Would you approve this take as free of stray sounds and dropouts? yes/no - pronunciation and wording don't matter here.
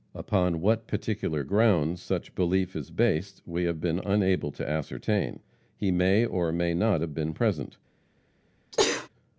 no